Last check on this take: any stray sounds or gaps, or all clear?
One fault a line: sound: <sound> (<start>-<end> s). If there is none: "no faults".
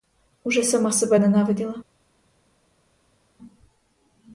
no faults